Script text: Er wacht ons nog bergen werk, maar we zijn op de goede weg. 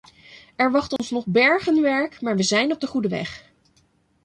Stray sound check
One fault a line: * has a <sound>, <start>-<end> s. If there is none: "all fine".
* has a dropout, 1.0-1.0 s